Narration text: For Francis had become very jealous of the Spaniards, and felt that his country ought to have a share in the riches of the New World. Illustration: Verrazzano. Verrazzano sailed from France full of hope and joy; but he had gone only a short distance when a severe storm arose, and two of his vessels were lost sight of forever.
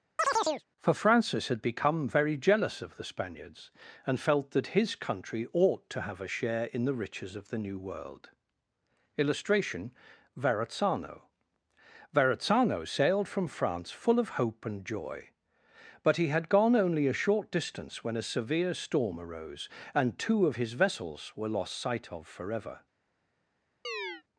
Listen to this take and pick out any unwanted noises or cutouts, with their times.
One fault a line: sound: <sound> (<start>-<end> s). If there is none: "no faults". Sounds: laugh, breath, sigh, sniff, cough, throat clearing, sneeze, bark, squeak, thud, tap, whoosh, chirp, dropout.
sound: chirp (0.2-0.6 s)
sound: chirp (23.8-24.2 s)